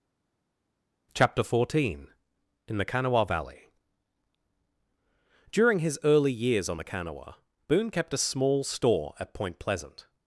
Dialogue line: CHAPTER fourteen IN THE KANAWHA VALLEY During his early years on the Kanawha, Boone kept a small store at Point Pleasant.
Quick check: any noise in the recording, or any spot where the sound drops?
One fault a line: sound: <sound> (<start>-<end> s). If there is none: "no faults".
no faults